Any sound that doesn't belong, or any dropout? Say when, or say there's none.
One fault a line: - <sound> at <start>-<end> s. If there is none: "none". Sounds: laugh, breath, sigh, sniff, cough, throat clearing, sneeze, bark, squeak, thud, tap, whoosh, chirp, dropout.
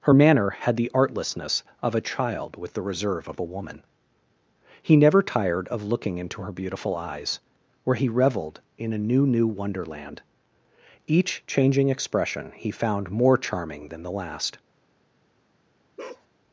- bark at 16.0-16.3 s